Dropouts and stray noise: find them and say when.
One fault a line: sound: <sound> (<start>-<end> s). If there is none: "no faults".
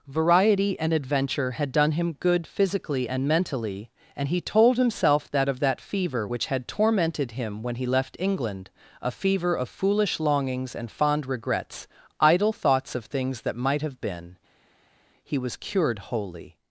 no faults